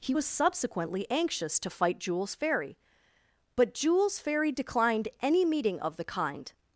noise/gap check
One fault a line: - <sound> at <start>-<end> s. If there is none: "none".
none